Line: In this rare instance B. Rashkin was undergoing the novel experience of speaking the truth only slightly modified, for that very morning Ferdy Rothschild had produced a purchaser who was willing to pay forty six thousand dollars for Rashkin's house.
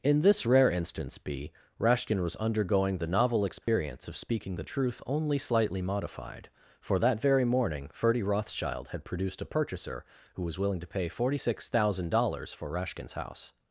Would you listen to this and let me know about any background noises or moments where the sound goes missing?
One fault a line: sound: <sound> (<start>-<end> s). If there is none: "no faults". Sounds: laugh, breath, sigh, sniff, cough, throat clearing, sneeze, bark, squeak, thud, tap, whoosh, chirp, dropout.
sound: dropout (3.6-3.7 s)